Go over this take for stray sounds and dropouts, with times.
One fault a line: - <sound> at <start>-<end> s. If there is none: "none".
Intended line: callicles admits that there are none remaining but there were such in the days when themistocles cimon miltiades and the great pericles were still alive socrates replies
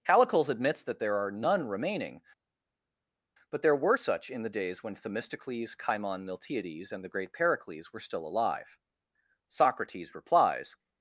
none